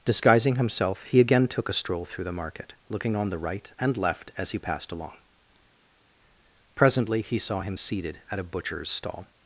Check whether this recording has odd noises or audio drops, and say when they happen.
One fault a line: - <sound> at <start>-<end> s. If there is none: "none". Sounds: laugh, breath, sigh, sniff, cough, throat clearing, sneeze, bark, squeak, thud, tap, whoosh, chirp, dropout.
none